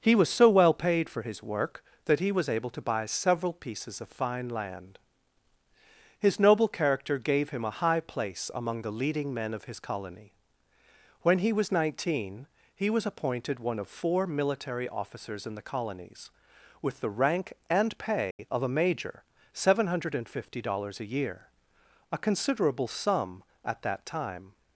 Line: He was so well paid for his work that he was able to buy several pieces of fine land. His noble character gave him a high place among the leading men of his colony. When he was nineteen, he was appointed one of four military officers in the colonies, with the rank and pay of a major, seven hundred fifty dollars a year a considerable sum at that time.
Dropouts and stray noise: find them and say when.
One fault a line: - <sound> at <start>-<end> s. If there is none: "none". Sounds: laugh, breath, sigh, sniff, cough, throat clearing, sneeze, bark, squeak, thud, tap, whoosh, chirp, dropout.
- dropout at 18.3-18.4 s